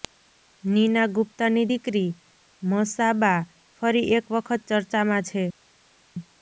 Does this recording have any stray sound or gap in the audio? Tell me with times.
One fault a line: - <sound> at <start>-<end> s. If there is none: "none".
none